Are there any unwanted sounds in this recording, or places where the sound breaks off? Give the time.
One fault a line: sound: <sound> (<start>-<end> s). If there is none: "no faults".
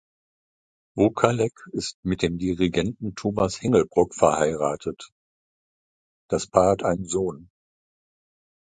no faults